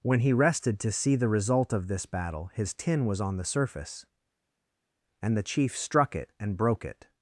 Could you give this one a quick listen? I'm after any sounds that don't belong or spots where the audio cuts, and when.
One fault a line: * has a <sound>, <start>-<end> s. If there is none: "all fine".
all fine